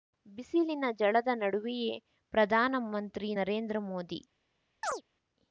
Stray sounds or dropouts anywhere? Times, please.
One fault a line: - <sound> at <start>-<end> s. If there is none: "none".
- chirp at 4.8-5.0 s